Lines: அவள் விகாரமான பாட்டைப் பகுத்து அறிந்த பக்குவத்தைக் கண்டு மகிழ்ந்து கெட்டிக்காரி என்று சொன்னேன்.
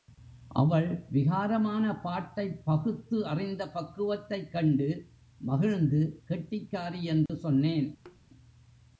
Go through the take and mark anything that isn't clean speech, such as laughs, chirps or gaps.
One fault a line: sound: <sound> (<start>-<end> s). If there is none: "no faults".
sound: dropout (7.3-7.3 s)
sound: thud (8.1-8.2 s)